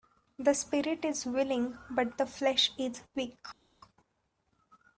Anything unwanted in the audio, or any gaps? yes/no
no